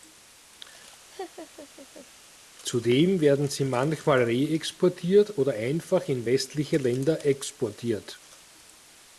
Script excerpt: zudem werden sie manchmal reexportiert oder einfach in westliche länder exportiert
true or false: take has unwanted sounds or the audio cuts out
true